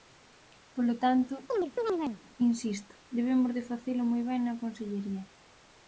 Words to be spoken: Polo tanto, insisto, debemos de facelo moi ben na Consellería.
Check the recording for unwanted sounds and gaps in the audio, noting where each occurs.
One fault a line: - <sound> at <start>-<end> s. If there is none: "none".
- chirp at 1.5-2.2 s